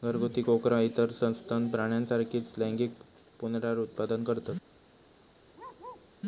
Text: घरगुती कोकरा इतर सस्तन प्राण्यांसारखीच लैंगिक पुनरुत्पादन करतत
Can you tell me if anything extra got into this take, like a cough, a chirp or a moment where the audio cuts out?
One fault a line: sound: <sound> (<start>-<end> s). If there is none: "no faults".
sound: bark (5.5-6.1 s)